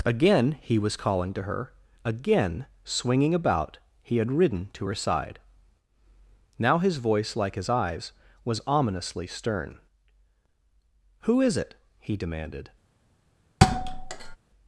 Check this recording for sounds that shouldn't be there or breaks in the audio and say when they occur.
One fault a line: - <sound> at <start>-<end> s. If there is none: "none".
- thud at 13.6-14.4 s